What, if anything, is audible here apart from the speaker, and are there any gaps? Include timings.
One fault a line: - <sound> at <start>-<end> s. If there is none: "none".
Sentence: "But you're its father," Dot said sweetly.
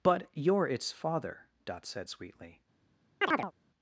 - chirp at 3.2-3.5 s